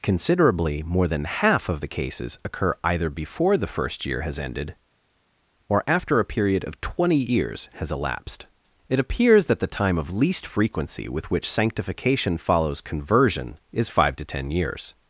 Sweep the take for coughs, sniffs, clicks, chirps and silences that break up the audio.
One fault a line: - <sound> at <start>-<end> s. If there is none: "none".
none